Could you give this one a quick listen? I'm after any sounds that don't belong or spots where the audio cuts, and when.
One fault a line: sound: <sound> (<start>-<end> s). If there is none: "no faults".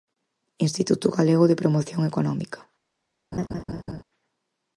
sound: laugh (3.3-4.0 s)